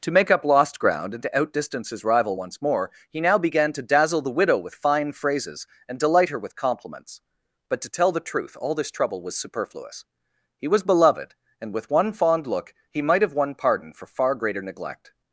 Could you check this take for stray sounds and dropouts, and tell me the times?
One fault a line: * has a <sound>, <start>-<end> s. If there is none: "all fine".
all fine